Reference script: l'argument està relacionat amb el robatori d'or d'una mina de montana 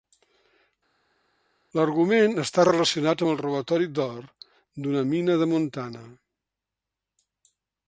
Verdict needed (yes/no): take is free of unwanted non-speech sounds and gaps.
yes